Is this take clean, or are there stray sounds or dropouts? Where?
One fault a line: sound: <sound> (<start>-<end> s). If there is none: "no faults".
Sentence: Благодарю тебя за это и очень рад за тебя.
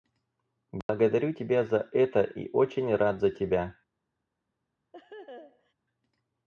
sound: dropout (0.8-0.9 s)
sound: laugh (4.9-5.7 s)